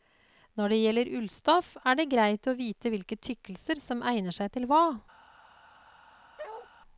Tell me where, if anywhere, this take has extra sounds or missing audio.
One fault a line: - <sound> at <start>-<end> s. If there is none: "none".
- bark at 6.4-6.7 s